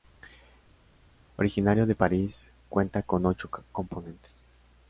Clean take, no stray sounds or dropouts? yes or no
yes